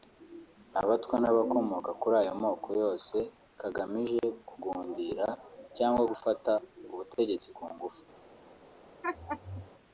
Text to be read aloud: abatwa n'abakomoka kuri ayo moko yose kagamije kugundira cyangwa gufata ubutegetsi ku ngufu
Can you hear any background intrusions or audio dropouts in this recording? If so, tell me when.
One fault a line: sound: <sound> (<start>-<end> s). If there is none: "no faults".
sound: laugh (9.0-9.7 s)